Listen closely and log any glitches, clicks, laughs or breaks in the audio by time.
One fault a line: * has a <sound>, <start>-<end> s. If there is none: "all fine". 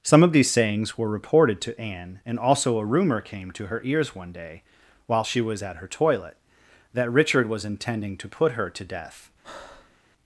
* has a breath, 9.4-10.0 s